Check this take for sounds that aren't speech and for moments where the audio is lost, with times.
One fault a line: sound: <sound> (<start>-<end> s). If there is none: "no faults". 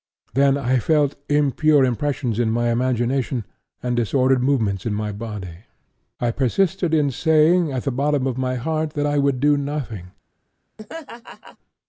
sound: laugh (10.8-11.6 s)